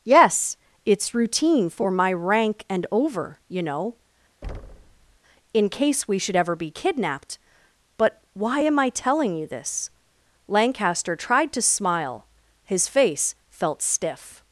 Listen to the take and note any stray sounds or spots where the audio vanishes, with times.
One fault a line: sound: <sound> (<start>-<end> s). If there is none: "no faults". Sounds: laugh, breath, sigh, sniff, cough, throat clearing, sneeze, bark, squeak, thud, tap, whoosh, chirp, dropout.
sound: thud (4.4-5.2 s)